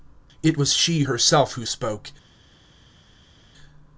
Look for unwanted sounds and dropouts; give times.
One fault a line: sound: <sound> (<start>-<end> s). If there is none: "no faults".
no faults